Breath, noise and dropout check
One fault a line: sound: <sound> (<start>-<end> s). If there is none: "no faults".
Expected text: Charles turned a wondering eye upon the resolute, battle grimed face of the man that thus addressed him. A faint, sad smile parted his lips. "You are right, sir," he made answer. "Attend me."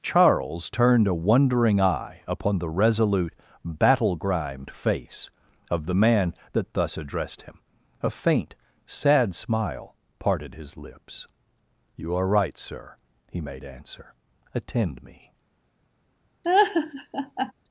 sound: laugh (16.4-17.5 s)